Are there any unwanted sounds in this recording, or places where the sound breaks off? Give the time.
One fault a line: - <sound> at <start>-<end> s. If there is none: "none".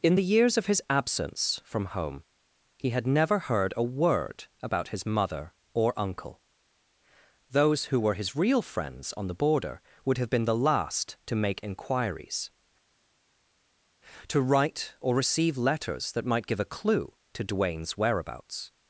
none